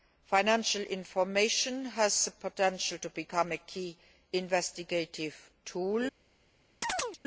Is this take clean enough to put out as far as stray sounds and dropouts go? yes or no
no